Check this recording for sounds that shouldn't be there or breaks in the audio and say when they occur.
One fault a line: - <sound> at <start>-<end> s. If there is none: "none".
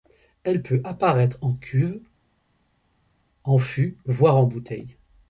none